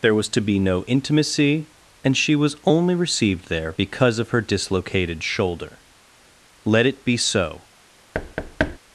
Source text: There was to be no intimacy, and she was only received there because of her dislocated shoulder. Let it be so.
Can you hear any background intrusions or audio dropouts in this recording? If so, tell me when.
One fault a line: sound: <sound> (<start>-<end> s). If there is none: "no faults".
sound: thud (8.1-8.8 s)